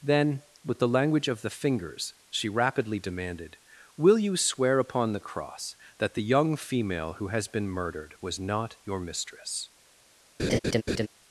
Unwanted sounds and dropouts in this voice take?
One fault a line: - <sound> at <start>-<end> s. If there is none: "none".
- laugh at 10.4-11.1 s